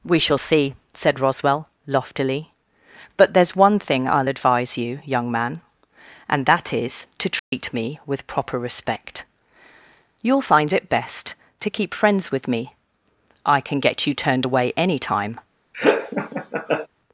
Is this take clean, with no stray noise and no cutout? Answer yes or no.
no